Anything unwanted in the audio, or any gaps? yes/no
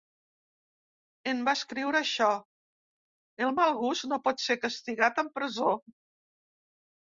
no